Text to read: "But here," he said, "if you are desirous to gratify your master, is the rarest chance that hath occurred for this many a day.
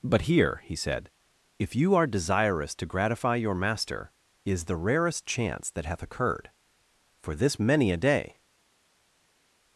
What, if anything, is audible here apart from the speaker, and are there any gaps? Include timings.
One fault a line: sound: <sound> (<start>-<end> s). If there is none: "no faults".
no faults